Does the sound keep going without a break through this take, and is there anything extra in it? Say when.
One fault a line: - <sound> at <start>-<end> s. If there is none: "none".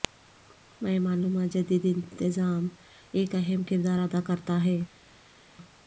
none